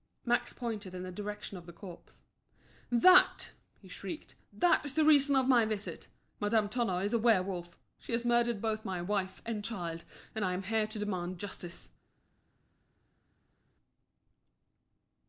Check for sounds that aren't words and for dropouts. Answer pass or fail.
pass